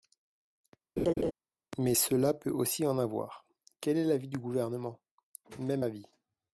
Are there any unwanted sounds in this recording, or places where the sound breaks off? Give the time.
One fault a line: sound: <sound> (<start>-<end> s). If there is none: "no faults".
sound: laugh (1.0-1.3 s)